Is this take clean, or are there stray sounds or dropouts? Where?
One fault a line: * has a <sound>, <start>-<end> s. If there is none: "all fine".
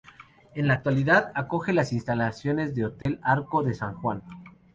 * has a dropout, 3.0-3.1 s